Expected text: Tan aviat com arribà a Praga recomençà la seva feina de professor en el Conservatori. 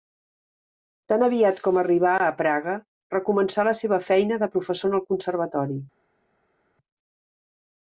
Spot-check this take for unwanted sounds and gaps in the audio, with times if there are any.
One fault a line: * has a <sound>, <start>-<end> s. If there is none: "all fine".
all fine